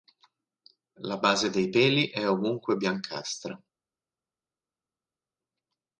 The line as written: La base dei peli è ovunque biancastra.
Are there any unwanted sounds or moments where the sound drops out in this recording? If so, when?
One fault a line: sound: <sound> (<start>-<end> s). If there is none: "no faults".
no faults